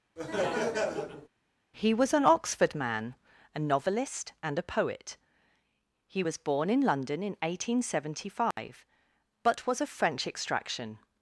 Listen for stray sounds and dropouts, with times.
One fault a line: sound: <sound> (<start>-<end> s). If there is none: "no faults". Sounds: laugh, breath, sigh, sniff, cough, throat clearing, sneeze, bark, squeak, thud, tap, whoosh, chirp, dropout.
sound: laugh (0.2-1.3 s)
sound: dropout (8.5-8.6 s)